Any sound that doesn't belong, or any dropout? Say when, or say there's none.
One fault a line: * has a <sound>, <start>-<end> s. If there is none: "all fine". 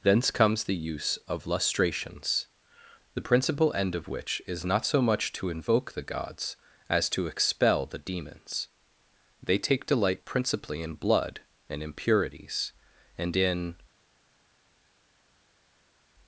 all fine